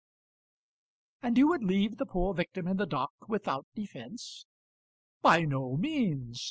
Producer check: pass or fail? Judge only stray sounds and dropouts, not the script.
pass